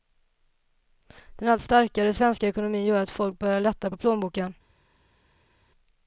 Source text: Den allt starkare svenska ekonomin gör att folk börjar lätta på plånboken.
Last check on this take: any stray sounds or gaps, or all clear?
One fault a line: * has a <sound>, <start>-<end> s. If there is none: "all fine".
all fine